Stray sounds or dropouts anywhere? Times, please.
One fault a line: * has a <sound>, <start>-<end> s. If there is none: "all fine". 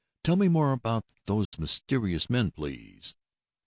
* has a dropout, 1.4-1.5 s